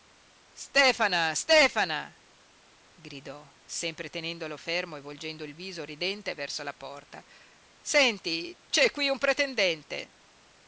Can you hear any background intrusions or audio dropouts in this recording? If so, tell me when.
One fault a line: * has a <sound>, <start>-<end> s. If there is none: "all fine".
all fine